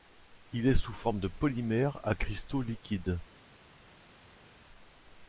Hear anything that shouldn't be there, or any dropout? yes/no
no